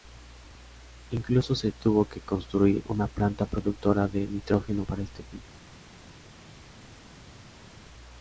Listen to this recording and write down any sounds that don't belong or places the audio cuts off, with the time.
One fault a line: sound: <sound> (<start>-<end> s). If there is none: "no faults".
no faults